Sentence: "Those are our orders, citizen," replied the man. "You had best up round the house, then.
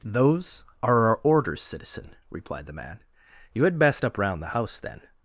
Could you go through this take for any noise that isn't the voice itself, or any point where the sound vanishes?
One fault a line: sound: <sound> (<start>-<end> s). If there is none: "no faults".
no faults